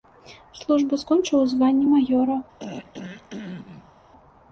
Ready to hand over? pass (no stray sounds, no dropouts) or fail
fail